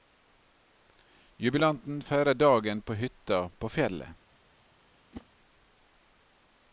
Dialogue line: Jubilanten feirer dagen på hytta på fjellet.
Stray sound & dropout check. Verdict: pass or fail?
fail